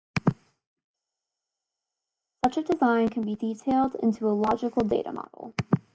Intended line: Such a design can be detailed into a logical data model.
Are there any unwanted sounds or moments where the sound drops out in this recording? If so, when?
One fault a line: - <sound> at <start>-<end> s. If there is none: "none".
none